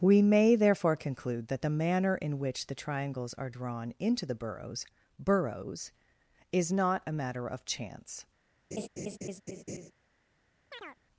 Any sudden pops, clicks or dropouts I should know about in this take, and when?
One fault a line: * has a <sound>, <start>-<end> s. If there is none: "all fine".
* has a laugh, 8.7-9.9 s
* has a chirp, 10.7-11.0 s